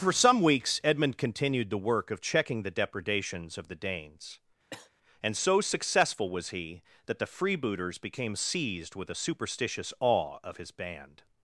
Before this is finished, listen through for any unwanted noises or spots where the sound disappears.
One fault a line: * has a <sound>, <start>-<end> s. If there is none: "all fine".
* has a cough, 4.7-4.9 s